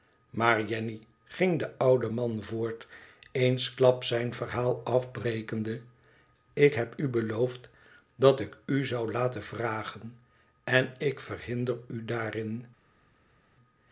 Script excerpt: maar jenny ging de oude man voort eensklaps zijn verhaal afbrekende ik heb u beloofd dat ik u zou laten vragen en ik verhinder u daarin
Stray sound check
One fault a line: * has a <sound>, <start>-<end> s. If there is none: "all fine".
all fine